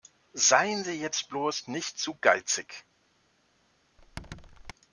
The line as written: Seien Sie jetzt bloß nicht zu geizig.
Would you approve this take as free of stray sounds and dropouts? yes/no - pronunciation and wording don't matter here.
no